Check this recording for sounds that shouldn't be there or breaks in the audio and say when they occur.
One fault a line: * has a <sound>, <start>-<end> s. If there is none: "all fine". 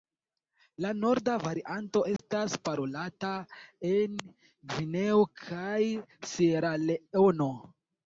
* has a dropout, 2.2-2.2 s